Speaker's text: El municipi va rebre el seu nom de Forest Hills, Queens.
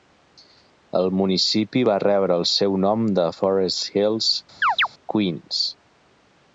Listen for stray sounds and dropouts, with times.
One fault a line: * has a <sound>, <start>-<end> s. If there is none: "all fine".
* has a chirp, 4.6-4.9 s